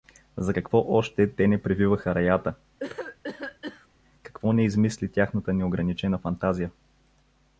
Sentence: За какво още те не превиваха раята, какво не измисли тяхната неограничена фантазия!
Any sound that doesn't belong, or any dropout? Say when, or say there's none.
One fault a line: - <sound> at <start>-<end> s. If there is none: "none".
- cough at 2.8-3.9 s